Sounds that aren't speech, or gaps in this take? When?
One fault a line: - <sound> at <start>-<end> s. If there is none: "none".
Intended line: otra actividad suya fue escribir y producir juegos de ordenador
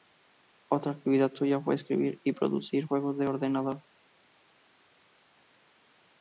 none